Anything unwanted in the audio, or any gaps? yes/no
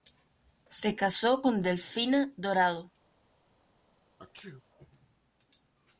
yes